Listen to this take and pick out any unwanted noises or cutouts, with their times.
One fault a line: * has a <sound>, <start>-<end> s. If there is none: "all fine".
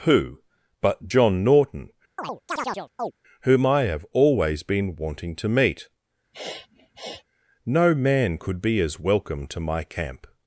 * has a chirp, 2.2-3.1 s
* has a sniff, 6.3-7.2 s